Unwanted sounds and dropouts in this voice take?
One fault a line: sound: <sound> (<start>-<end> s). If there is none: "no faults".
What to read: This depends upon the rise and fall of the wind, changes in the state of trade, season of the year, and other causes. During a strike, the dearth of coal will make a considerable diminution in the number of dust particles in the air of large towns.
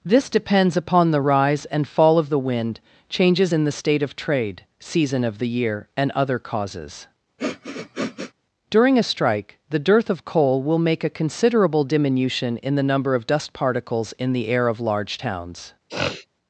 sound: sniff (7.4-8.3 s)
sound: sniff (15.9-16.3 s)